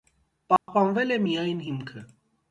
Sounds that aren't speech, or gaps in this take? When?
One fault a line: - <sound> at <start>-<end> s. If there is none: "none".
- dropout at 0.6-0.7 s